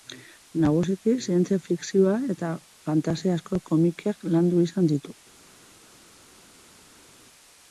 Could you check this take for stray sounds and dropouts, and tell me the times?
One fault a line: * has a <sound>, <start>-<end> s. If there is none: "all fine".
all fine